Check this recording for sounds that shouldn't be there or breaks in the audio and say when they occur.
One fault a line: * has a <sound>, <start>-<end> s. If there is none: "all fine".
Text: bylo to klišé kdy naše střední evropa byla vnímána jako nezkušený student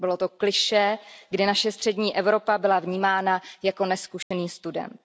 * has a dropout, 4.2-4.3 s